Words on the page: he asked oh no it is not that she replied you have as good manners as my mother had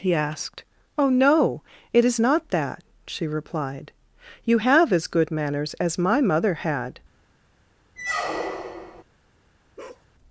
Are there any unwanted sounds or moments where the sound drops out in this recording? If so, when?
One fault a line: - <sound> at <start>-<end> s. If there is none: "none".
- squeak at 8.0-9.0 s
- bark at 9.8-10.1 s